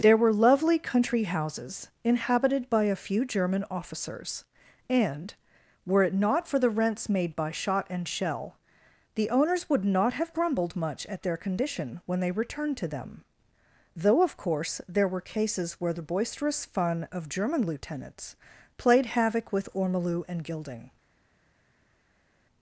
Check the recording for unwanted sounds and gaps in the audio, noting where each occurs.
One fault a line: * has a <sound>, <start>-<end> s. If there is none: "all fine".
all fine